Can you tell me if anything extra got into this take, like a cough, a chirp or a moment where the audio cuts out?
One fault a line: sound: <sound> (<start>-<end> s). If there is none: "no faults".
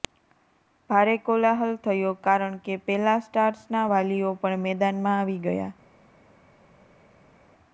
no faults